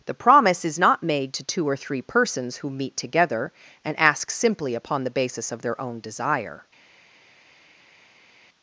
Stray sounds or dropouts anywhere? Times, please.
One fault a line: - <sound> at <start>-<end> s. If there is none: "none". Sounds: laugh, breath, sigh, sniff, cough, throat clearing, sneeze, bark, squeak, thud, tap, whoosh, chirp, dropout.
none